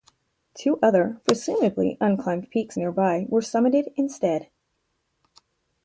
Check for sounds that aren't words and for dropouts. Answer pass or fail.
pass